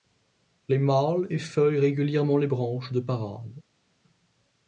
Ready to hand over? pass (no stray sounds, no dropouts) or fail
pass